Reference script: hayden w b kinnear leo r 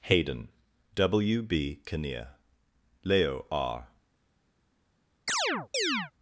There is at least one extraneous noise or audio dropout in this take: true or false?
true